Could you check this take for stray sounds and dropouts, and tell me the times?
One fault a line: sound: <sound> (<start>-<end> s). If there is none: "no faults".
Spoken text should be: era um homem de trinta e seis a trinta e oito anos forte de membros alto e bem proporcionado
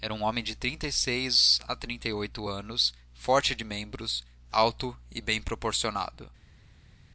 no faults